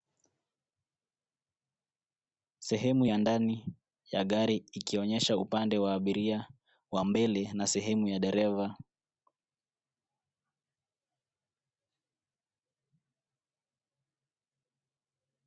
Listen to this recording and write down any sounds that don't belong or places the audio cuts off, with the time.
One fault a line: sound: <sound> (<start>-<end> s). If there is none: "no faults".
no faults